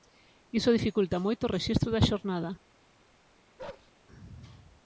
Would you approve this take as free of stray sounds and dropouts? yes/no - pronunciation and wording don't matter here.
no